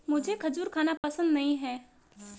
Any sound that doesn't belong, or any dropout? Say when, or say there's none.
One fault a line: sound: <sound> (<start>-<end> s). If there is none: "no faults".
sound: dropout (1.0-1.0 s)